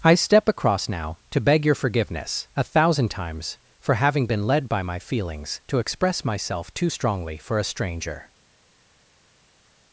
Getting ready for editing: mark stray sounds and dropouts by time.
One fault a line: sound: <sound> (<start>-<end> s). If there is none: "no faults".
no faults